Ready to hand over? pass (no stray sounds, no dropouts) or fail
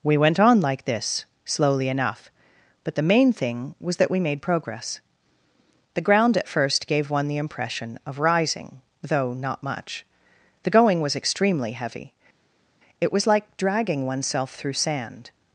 pass